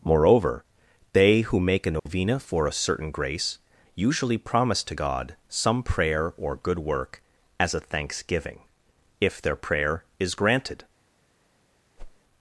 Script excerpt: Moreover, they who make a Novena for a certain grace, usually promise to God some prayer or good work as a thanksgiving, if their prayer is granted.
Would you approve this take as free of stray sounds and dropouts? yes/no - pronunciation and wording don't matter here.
no